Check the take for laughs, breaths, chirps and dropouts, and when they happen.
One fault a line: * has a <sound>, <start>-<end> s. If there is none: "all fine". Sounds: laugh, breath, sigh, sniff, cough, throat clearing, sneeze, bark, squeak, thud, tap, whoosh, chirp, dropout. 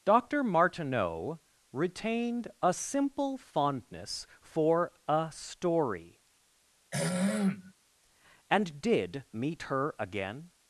* has a throat clearing, 6.9-7.7 s